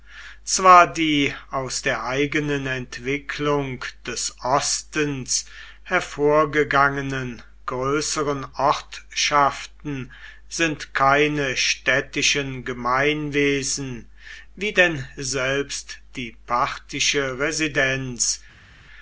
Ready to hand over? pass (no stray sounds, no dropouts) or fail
pass